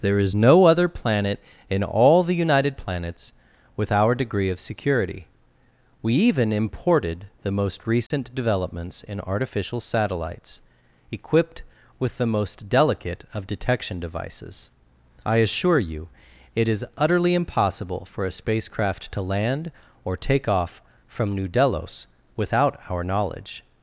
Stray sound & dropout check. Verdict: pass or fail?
fail